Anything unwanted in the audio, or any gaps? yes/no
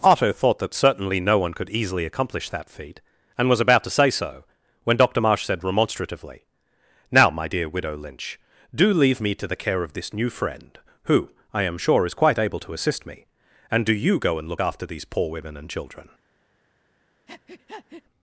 yes